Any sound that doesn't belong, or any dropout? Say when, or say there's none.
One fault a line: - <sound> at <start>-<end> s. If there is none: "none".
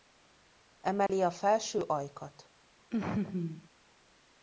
- dropout at 1.1-1.1 s
- laugh at 2.9-3.7 s